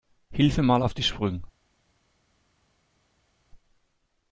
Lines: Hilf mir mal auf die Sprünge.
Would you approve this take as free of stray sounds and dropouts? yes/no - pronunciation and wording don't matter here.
yes